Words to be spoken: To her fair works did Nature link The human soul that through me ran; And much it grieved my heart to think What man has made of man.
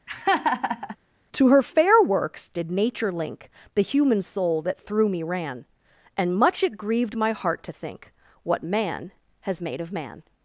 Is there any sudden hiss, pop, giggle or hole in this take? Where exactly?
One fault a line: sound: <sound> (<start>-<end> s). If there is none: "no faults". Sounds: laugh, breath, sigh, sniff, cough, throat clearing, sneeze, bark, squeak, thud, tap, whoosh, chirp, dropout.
sound: laugh (0.1-1.0 s)